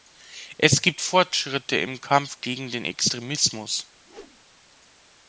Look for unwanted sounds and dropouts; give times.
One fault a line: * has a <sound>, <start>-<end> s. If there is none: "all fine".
* has a whoosh, 4.0-4.4 s